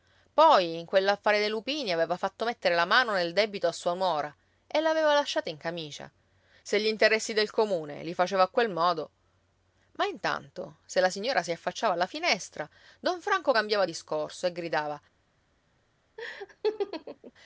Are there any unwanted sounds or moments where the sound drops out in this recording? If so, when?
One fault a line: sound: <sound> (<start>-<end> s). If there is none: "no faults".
sound: laugh (16.2-17.3 s)